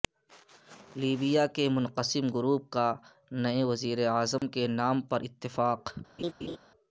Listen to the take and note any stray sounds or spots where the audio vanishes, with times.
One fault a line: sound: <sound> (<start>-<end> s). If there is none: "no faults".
sound: dropout (4.4-4.4 s)
sound: laugh (6.2-6.6 s)